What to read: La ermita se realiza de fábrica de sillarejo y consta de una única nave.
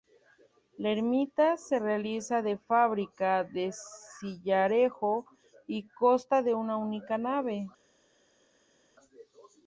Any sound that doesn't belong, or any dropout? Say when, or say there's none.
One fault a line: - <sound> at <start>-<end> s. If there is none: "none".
none